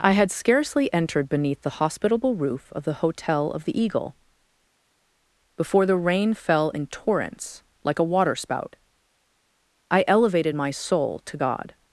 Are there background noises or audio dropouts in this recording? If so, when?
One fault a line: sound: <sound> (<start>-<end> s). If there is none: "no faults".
no faults